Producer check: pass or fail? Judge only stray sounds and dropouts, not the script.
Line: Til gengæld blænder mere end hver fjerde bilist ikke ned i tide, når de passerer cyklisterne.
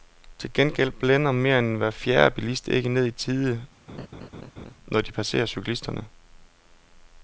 fail